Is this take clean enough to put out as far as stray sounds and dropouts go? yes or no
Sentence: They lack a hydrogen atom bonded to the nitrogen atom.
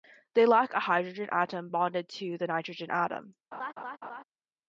no